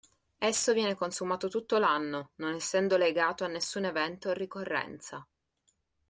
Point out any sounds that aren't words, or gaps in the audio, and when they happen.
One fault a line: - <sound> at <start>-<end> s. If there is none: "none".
none